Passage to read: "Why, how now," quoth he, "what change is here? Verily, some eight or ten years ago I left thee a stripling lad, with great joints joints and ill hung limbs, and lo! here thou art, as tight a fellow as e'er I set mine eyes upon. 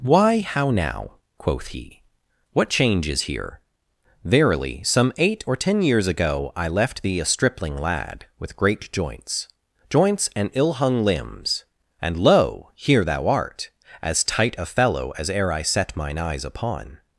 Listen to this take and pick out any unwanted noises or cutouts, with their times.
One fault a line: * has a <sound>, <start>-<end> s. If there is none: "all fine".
all fine